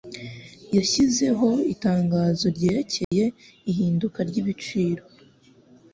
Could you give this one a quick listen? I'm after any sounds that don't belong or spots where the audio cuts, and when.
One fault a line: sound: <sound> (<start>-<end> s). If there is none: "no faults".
sound: dropout (3.0-3.1 s)